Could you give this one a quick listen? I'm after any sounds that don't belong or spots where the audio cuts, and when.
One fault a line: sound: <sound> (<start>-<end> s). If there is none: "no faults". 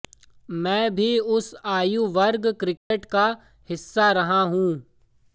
sound: dropout (2.8-2.9 s)